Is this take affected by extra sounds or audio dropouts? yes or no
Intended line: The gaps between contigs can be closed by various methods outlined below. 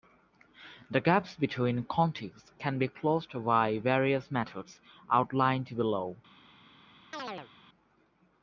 yes